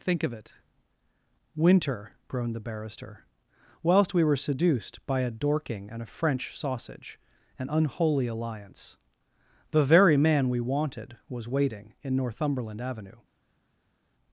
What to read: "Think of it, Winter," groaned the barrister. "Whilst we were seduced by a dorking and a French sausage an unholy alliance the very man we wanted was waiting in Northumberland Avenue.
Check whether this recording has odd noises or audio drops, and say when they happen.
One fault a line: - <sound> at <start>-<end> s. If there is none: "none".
none